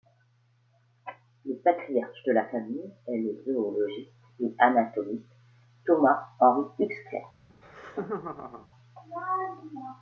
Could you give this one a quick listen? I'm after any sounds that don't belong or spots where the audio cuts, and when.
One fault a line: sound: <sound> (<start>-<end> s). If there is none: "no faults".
sound: laugh (7.5-8.7 s)